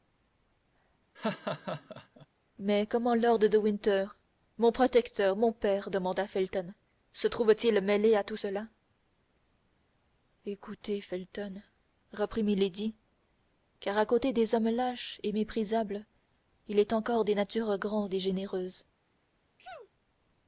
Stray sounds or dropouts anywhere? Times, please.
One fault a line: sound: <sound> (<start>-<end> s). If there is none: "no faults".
sound: laugh (1.1-2.3 s)
sound: sneeze (19.6-19.9 s)